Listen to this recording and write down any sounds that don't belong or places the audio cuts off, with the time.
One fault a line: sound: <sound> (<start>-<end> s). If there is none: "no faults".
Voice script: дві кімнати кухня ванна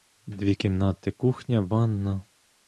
no faults